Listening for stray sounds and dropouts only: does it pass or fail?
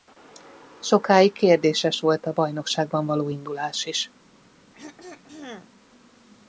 fail